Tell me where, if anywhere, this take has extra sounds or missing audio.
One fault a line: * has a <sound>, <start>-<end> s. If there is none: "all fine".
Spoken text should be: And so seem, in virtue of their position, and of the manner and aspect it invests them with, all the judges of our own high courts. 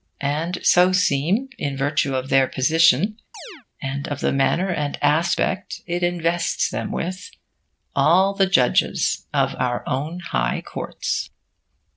* has a chirp, 3.3-3.7 s